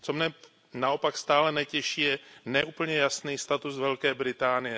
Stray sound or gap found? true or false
false